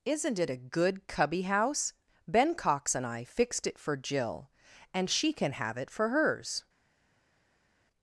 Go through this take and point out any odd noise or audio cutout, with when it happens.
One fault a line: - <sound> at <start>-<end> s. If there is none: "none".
none